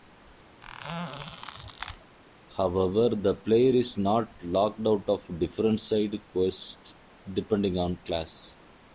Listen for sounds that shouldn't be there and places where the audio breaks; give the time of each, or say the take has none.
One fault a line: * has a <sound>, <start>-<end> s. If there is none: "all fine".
* has a squeak, 0.6-2.2 s